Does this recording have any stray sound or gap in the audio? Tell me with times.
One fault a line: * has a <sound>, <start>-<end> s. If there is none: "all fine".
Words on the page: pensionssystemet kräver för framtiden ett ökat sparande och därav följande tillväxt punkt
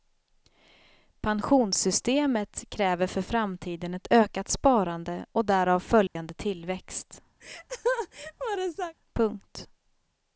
* has a dropout, 6.1-6.2 s
* has a laugh, 7.4-8.9 s